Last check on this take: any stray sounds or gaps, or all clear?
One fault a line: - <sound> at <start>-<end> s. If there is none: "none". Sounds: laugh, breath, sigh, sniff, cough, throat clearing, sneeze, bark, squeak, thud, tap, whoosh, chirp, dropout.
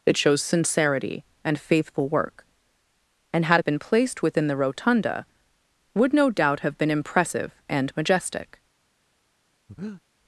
- breath at 9.7-10.0 s